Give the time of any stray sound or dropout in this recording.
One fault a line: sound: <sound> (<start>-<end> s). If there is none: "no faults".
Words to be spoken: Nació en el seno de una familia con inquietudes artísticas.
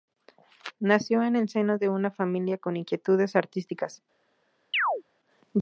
sound: chirp (4.7-5.0 s)